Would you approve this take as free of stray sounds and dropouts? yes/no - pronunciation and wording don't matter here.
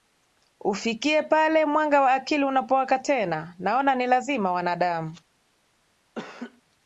no